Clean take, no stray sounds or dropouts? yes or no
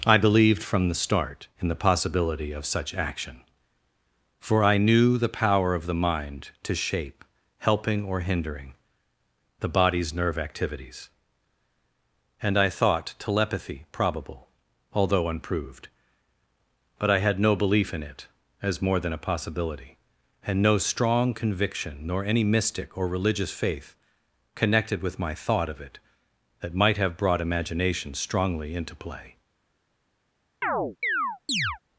no